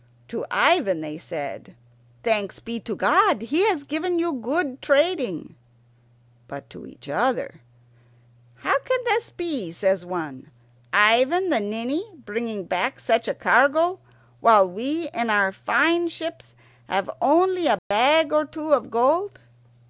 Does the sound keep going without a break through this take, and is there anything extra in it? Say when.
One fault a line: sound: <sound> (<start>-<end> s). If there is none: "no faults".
sound: dropout (17.8-17.9 s)